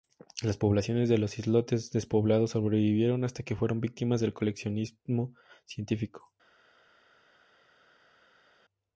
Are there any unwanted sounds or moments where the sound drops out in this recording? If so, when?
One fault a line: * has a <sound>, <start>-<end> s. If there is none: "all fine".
all fine